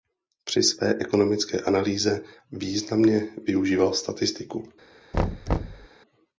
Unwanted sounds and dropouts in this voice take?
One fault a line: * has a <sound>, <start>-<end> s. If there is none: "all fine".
* has a thud, 5.1-5.9 s